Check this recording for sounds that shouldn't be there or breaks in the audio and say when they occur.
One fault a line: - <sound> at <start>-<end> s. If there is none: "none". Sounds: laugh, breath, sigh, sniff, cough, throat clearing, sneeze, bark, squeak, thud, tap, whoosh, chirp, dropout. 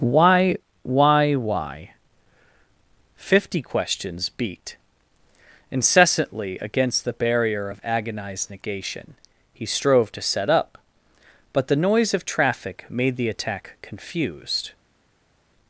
none